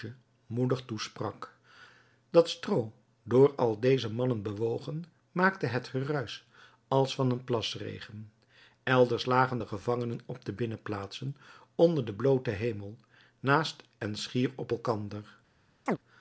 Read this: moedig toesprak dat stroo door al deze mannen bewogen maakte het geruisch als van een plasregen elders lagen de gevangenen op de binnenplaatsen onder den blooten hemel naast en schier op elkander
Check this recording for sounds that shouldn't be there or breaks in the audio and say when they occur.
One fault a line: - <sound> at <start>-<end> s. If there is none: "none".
- chirp at 15.9-16.0 s